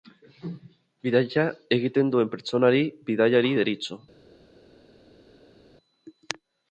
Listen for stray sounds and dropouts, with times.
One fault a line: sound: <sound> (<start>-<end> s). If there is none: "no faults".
no faults